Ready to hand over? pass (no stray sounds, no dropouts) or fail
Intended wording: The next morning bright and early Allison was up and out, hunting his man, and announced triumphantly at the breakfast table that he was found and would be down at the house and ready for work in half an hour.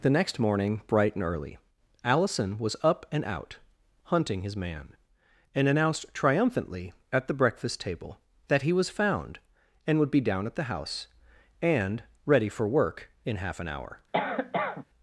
fail